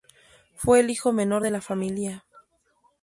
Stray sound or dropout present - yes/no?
no